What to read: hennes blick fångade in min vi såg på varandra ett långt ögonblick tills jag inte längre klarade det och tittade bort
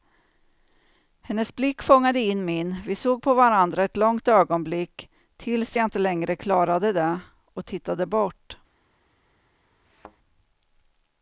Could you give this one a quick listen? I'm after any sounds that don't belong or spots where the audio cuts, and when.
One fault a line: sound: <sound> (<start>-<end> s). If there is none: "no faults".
sound: thud (9.8-10.2 s)